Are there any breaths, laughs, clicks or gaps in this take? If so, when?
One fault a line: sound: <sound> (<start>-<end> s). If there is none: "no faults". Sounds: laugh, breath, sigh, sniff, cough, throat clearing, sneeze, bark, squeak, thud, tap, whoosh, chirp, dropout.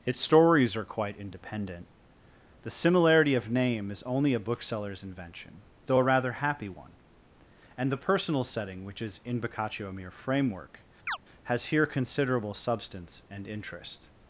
sound: chirp (11.1-11.2 s)